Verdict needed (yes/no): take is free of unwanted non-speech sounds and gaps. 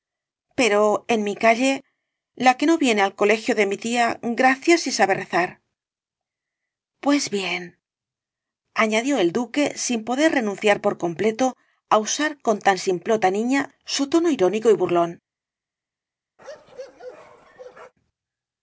no